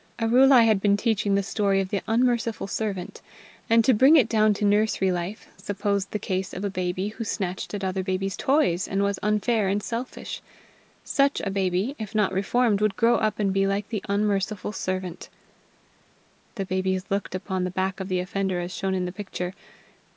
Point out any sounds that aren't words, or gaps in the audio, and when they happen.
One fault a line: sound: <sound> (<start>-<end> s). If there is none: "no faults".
no faults